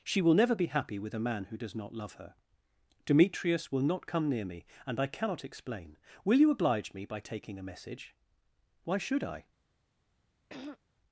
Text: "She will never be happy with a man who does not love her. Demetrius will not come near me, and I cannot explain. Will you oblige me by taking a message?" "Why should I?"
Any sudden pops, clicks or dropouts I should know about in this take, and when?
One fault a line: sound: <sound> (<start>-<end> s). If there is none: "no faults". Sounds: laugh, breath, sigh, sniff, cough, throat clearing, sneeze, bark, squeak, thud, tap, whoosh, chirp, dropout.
sound: throat clearing (10.5-10.8 s)